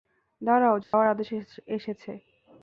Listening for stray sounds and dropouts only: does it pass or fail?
fail